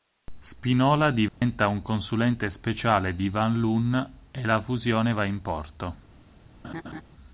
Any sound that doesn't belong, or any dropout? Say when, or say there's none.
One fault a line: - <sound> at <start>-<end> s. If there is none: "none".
- dropout at 1.3-1.4 s
- laugh at 6.6-7.0 s